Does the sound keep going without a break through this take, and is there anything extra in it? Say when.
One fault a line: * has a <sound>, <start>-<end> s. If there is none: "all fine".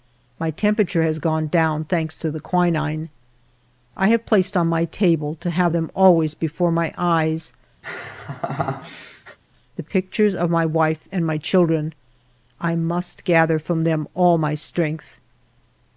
* has a laugh, 7.8-9.4 s